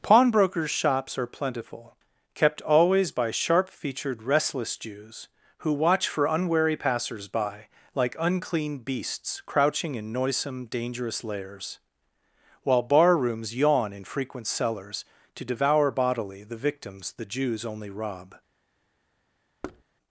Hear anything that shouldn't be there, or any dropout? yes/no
yes